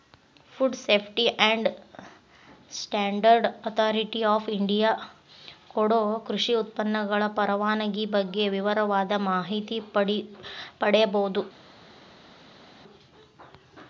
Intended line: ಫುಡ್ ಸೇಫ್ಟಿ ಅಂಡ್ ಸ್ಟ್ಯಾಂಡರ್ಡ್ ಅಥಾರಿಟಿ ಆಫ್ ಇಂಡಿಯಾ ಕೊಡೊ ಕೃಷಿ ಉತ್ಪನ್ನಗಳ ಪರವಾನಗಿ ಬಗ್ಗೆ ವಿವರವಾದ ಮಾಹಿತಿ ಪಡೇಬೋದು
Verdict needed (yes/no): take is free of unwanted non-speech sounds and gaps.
yes